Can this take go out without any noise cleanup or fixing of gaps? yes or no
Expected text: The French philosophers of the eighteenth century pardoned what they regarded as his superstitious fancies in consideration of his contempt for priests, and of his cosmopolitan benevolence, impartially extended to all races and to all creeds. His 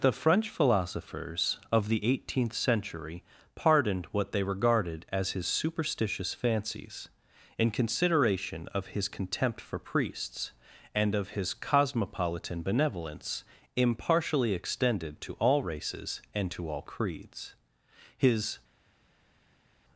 yes